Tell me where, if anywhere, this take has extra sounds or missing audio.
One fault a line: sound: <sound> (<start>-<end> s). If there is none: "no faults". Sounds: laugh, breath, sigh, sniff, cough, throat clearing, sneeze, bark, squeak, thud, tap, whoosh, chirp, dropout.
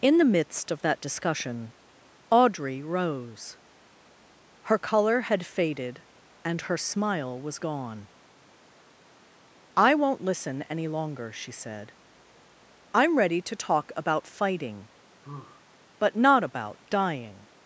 sound: sigh (15.2-15.6 s)